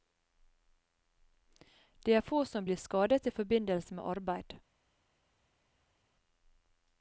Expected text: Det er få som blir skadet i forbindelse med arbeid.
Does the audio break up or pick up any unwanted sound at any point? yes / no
no